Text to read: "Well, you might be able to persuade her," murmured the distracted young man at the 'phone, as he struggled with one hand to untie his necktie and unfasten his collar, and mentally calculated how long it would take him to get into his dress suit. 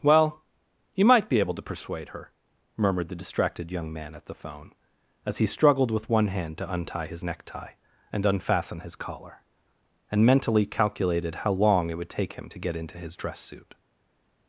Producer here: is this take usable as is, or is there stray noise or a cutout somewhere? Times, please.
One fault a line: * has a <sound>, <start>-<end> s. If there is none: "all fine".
all fine